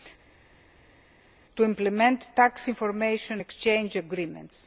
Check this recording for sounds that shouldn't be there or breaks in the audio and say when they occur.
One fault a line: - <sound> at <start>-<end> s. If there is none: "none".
none